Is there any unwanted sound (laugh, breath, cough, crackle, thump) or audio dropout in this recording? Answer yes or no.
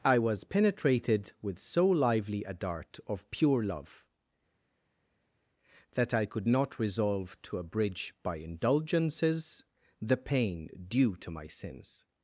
no